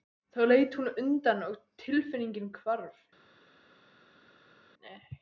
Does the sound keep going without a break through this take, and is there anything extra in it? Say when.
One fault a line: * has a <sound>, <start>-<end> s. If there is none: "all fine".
all fine